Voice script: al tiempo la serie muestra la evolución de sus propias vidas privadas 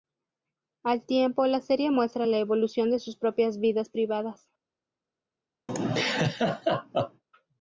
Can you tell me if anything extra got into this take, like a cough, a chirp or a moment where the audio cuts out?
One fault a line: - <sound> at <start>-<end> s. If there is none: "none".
- laugh at 5.7-7.2 s